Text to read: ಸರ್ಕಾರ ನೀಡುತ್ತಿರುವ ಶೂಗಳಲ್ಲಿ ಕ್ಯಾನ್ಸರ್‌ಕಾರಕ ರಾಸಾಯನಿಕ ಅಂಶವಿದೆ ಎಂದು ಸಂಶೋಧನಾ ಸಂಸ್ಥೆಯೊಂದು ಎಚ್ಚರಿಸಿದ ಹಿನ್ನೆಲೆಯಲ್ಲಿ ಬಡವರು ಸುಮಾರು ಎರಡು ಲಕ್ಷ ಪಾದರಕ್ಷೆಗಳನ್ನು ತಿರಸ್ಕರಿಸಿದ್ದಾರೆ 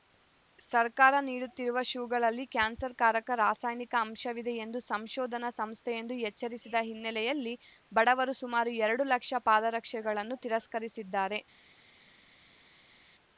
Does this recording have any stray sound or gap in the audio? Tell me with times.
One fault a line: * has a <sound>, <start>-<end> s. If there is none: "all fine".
all fine